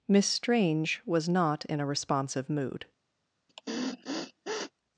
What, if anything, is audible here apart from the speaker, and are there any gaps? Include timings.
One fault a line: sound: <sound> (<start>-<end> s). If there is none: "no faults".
sound: sniff (3.5-4.7 s)